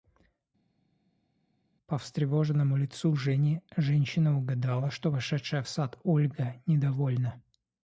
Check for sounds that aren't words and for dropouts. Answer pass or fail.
pass